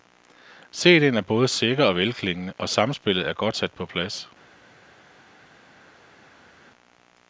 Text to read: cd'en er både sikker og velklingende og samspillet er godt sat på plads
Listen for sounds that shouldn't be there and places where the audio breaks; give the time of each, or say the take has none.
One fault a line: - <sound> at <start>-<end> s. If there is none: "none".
none